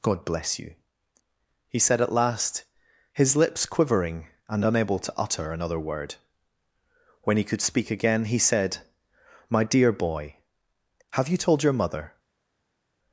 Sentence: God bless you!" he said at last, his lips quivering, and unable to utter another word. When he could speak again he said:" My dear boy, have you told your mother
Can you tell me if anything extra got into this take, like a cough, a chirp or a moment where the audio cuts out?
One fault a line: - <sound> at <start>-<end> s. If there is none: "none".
none